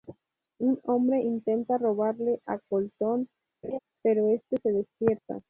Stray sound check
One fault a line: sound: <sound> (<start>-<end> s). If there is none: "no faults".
sound: laugh (3.6-3.8 s)